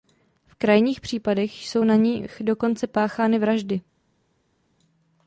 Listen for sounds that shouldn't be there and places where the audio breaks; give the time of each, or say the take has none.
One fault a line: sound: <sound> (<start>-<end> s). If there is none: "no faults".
no faults